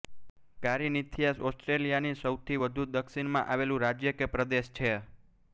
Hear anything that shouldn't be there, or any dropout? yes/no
no